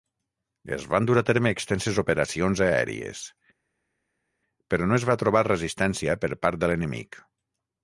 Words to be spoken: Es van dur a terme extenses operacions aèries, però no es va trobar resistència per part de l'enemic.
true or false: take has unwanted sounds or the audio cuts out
false